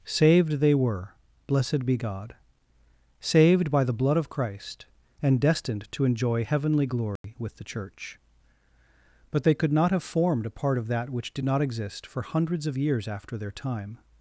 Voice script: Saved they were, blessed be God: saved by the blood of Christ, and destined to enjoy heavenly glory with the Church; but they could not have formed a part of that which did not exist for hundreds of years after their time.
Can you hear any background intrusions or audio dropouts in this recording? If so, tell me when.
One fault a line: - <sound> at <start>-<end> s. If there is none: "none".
- dropout at 7.2-7.2 s